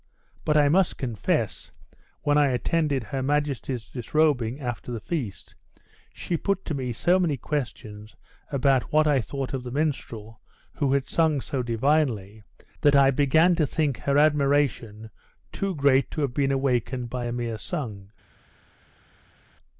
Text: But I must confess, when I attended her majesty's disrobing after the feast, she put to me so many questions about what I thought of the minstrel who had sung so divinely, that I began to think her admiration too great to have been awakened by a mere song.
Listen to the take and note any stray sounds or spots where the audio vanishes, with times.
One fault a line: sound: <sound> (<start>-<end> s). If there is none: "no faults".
no faults